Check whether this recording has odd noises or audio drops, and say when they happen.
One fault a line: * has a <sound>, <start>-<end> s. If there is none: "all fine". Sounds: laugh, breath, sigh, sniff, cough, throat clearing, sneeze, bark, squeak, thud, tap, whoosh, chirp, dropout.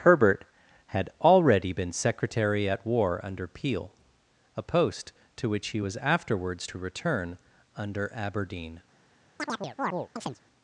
* has a chirp, 9.4-10.4 s